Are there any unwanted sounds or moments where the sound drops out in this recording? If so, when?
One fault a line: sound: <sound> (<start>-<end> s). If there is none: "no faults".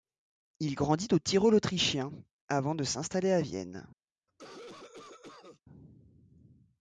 sound: cough (4.3-5.6 s)